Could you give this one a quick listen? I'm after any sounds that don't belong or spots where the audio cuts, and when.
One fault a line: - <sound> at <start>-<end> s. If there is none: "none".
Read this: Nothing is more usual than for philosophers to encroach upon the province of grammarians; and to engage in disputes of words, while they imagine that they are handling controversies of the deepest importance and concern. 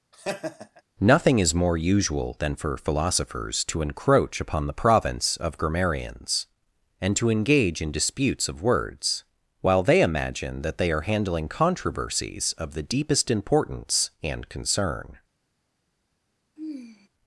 - laugh at 0.1-0.8 s
- sigh at 16.6-17.1 s